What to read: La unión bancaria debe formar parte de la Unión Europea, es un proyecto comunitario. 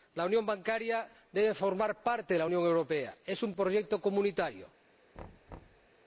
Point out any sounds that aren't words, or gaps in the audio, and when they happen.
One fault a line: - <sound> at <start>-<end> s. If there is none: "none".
- thud at 5.1-5.9 s